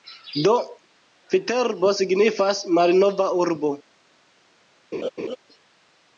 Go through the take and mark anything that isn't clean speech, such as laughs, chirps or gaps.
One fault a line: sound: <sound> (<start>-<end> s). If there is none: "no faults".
sound: laugh (4.9-5.4 s)